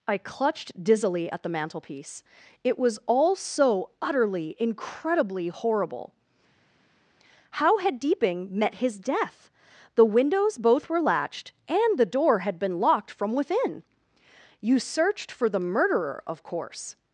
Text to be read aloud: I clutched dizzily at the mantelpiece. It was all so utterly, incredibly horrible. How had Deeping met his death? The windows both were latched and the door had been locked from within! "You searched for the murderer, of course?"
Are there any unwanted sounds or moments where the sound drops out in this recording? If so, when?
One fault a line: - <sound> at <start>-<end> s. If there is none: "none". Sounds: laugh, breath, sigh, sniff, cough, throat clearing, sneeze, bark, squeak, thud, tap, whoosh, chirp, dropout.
none